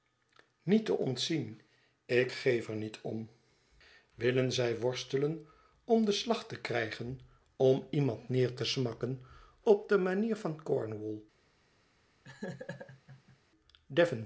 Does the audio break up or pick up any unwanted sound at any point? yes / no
yes